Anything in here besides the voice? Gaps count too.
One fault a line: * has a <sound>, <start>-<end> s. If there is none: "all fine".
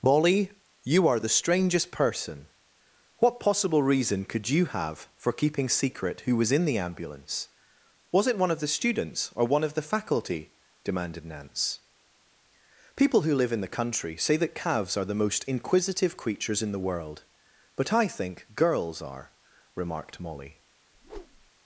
* has a whoosh, 20.9-21.5 s